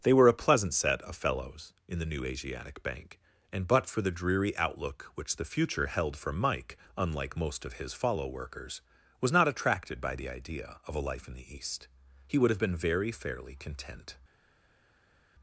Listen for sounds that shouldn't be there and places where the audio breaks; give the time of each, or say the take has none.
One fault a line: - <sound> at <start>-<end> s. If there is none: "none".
none